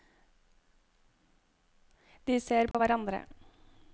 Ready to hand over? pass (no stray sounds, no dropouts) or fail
fail